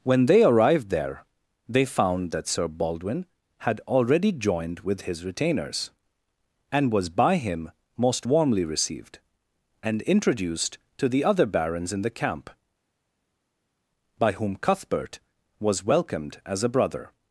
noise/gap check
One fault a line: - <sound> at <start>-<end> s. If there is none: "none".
none